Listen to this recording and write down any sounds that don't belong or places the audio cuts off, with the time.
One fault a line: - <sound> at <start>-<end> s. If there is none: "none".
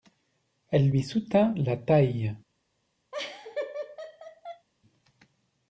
- laugh at 3.1-4.7 s